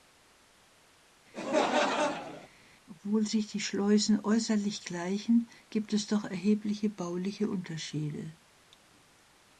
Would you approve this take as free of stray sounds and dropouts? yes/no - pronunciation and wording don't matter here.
no